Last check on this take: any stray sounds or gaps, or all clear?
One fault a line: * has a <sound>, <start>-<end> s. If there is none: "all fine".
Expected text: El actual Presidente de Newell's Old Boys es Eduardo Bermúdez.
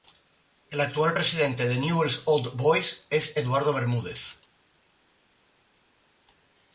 all fine